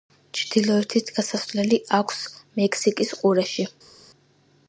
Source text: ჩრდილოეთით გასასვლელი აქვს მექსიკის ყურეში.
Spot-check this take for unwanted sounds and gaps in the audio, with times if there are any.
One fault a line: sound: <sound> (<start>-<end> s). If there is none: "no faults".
no faults